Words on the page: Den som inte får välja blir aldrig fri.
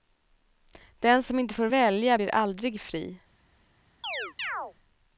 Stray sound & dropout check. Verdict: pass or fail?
fail